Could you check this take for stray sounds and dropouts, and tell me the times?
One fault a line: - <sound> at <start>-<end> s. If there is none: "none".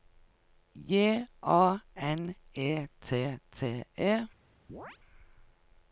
- chirp at 4.7-5.0 s